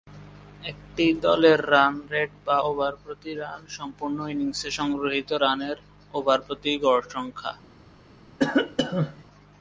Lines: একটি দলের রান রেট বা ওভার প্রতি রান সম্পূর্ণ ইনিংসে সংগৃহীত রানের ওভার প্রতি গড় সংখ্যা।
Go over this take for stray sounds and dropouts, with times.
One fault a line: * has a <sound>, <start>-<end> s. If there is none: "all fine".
* has a cough, 8.4-9.2 s